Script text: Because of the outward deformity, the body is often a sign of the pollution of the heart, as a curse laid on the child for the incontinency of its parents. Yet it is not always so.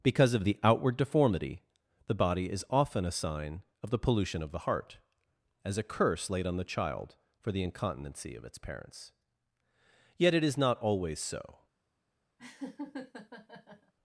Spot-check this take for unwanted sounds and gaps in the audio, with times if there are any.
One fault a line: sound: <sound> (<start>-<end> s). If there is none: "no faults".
sound: laugh (12.4-13.9 s)